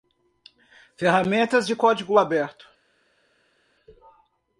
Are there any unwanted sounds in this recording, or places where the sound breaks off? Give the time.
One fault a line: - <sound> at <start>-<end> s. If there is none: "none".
none